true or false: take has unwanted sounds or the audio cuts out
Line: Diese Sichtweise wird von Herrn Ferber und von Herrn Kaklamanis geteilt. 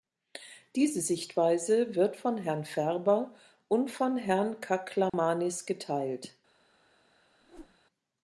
true